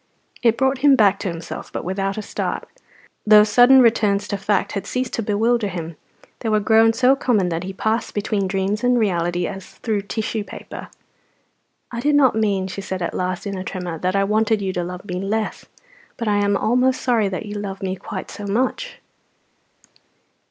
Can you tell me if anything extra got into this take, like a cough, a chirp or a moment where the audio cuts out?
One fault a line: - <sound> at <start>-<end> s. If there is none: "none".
none